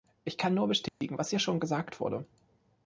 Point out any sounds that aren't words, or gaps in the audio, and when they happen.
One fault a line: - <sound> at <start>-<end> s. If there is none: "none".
- dropout at 0.9-1.0 s